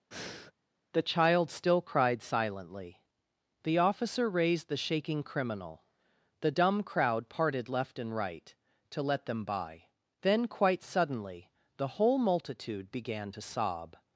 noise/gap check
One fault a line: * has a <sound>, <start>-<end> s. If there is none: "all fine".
* has a breath, 0.1-0.5 s